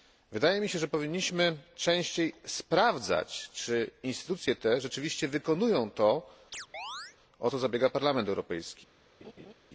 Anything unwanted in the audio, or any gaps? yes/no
yes